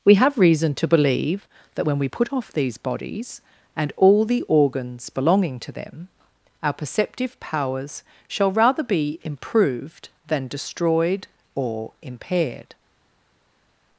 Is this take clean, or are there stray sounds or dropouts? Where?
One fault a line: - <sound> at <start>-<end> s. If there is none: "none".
none